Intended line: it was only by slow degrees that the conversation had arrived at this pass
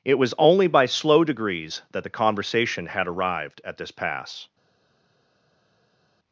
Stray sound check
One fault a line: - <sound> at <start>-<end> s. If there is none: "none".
none